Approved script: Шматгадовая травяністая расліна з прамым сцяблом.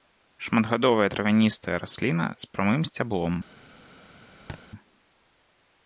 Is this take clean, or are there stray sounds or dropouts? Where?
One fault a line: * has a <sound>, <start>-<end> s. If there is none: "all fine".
* has a thud, 4.5-4.6 s